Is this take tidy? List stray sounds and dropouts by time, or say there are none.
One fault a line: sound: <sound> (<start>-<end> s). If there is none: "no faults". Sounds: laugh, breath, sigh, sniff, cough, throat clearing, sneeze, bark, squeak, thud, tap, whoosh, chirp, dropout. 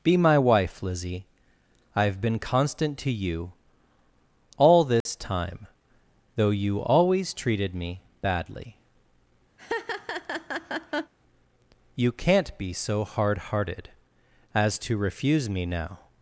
sound: dropout (5.0-5.1 s)
sound: laugh (9.6-11.1 s)